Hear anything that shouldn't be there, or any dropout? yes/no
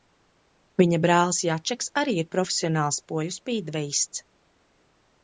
no